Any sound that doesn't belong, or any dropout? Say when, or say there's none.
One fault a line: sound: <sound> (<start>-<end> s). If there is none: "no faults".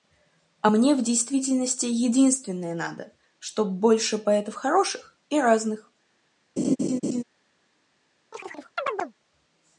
sound: laugh (6.6-7.2 s)
sound: chirp (8.3-9.1 s)